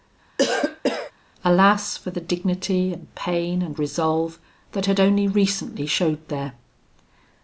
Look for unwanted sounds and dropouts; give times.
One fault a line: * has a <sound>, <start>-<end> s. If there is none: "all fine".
* has a cough, 0.4-1.1 s